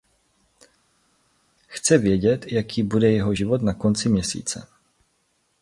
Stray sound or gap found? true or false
false